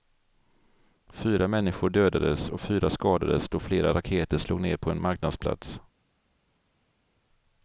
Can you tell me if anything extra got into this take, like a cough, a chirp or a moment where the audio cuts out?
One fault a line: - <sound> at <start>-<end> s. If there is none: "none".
none